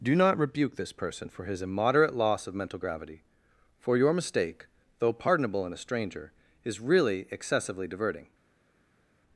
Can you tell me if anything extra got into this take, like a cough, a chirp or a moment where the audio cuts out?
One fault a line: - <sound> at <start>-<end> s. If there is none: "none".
none